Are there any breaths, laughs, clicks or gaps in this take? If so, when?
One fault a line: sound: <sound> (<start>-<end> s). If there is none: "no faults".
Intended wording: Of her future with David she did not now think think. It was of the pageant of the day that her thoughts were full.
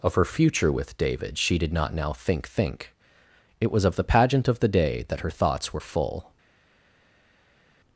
no faults